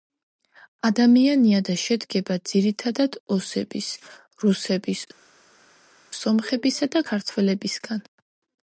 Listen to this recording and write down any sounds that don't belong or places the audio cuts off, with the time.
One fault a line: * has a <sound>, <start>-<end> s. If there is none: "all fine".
all fine